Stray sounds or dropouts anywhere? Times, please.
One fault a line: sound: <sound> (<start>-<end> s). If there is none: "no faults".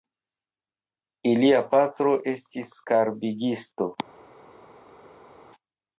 no faults